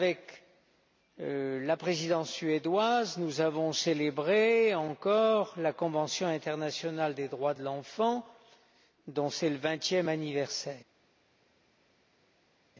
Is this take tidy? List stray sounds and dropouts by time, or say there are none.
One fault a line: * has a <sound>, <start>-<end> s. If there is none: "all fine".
all fine